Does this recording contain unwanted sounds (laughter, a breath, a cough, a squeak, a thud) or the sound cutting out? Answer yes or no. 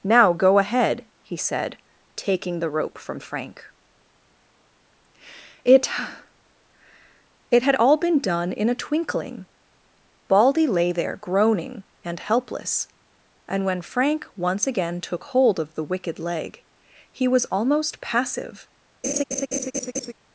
yes